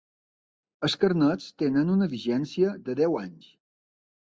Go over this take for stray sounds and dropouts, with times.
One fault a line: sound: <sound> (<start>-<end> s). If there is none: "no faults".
no faults